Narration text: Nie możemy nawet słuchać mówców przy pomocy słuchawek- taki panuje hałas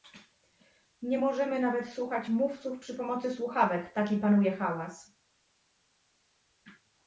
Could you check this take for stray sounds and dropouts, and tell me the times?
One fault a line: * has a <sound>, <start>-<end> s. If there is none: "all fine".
all fine